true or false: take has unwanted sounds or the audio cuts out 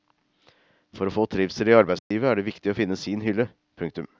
true